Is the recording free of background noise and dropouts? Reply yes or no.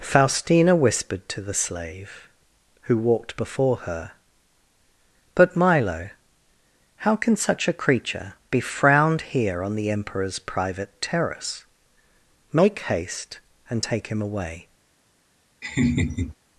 no